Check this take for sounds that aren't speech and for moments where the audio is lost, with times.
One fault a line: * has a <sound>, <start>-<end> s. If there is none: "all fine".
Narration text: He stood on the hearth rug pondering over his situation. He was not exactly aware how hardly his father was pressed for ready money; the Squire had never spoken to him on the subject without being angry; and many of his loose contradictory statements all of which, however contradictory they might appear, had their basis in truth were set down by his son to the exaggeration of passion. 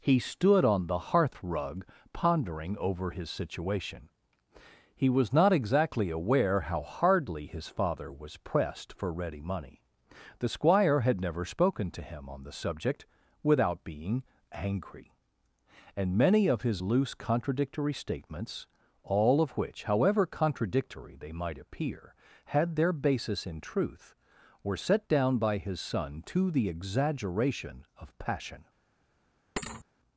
* has a thud, 29.6-29.8 s